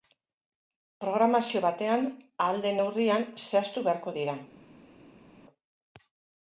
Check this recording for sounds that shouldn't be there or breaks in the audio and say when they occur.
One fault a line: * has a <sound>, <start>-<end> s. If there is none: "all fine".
all fine